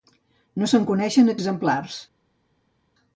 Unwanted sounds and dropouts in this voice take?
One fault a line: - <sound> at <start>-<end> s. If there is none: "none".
none